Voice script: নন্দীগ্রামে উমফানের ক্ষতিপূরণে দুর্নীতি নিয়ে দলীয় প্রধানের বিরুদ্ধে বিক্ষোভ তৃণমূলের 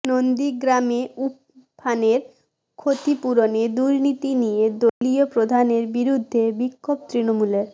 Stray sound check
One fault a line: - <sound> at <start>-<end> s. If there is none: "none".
- dropout at 4.9-5.0 s